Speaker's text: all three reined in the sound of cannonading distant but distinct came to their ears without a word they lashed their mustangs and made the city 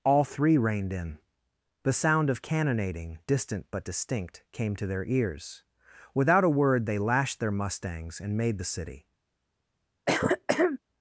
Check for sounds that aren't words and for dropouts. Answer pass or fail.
fail